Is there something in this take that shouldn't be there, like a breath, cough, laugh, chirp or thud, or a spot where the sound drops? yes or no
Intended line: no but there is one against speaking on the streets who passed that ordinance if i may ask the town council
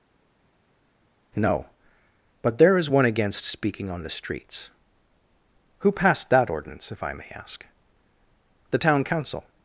no